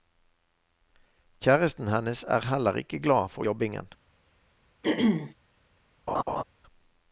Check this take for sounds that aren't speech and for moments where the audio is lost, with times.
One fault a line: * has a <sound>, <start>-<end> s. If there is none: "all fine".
* has a throat clearing, 4.8-5.3 s
* has a laugh, 6.1-6.4 s